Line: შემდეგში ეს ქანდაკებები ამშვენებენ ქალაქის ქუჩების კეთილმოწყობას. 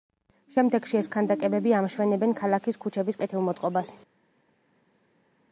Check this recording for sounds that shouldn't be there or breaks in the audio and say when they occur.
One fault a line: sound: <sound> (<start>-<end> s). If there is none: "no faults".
no faults